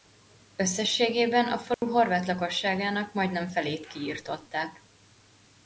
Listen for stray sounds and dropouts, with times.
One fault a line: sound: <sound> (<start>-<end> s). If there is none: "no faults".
sound: dropout (1.7-1.8 s)